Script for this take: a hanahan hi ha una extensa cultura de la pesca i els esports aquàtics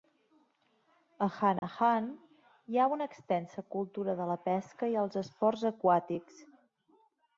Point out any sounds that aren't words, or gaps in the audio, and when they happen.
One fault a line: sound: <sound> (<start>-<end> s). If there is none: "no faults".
sound: dropout (1.6-1.6 s)